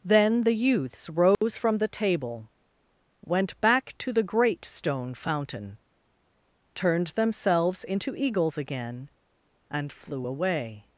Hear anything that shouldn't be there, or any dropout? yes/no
yes